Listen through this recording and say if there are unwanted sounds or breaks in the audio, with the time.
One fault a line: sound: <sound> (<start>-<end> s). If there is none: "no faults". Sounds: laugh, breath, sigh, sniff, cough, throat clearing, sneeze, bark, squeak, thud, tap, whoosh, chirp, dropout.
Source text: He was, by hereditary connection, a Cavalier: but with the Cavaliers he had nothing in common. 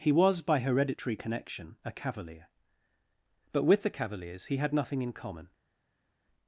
no faults